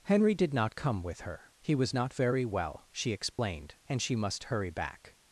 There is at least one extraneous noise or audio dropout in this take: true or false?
true